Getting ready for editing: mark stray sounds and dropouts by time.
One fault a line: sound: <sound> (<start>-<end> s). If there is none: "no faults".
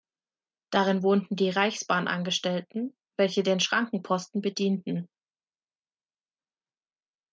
no faults